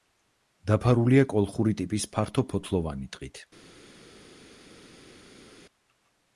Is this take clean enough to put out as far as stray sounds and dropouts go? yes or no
yes